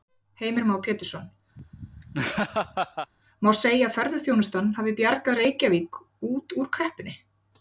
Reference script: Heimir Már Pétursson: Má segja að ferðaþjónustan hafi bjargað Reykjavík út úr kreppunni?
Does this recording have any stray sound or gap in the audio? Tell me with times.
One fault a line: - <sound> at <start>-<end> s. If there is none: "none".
- laugh at 1.6-3.1 s